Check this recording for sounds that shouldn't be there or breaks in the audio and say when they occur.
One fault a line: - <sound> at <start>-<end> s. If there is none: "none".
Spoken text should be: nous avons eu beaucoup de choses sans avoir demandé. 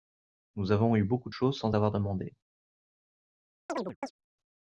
- chirp at 3.7-4.1 s